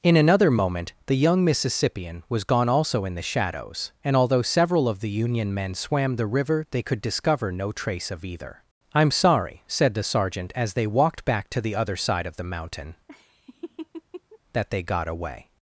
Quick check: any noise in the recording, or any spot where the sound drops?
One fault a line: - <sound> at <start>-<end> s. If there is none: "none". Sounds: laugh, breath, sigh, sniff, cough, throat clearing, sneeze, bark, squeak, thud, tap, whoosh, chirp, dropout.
- laugh at 13.1-14.4 s